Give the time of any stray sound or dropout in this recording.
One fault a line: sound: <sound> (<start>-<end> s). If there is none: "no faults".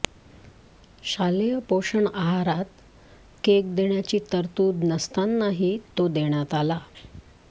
no faults